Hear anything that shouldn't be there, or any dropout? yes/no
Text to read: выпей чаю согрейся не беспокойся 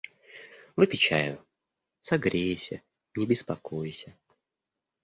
no